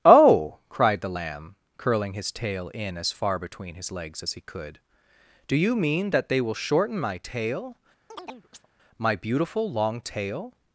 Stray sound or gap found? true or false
true